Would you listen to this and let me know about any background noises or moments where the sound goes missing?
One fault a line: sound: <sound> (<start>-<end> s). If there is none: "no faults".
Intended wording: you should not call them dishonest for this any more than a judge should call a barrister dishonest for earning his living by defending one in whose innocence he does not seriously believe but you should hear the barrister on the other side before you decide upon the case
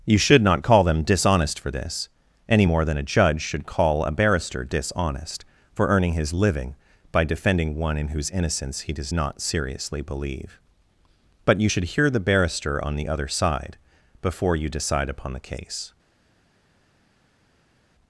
no faults